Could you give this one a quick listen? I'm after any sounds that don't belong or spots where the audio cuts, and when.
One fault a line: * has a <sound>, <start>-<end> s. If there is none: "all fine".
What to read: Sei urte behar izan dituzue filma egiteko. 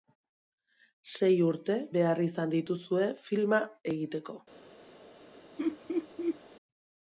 * has a laugh, 5.6-6.4 s